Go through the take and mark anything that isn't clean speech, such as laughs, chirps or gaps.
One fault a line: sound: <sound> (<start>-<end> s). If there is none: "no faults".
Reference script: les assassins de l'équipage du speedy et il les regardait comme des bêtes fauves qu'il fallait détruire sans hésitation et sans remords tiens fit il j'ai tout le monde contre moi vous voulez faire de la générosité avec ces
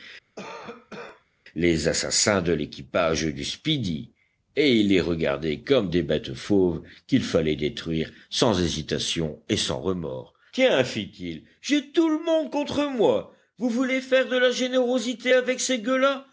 sound: cough (0.4-1.3 s)